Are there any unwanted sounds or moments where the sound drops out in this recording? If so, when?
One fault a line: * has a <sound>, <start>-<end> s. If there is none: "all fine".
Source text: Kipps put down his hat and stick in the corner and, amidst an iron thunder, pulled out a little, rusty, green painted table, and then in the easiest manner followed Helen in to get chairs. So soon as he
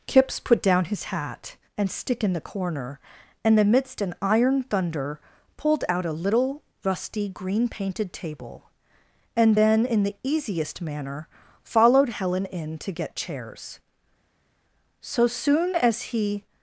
all fine